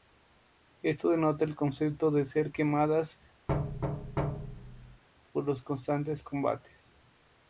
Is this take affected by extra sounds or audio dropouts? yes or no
yes